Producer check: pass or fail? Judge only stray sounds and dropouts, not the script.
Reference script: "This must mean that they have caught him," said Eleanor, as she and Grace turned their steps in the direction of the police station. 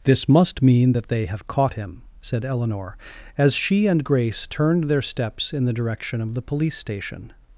pass